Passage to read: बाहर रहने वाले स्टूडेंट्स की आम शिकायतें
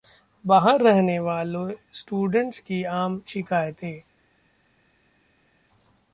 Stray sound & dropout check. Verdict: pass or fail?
pass